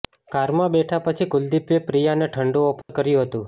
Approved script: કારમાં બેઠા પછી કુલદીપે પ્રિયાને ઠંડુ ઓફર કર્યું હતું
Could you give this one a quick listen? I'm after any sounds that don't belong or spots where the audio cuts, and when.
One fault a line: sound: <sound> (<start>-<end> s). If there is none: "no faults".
sound: dropout (2.8-2.9 s)